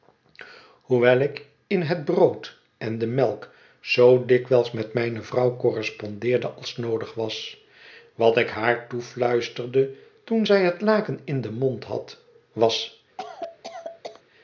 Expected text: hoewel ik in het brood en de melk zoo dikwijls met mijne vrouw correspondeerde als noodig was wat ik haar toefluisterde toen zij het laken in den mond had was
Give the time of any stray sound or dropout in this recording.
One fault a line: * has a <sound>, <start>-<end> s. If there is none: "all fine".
* has a cough, 13.2-14.2 s